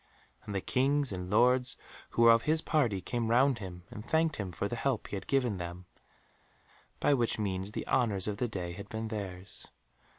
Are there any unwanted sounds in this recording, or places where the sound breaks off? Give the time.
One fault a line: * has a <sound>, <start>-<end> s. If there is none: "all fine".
all fine